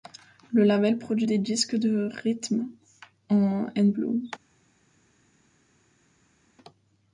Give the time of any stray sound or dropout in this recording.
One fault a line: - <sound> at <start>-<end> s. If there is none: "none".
none